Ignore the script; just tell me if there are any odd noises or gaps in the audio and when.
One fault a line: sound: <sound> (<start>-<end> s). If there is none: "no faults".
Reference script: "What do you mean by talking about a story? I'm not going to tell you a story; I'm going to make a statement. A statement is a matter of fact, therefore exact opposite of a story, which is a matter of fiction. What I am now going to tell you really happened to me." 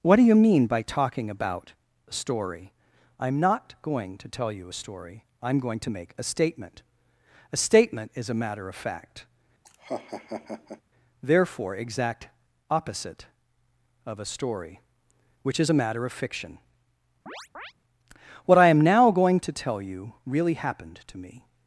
sound: laugh (9.6-10.8 s)
sound: chirp (17.3-17.7 s)